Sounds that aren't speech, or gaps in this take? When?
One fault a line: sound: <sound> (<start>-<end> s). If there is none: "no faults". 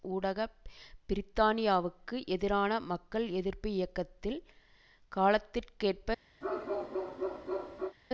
sound: bark (6.4-8.0 s)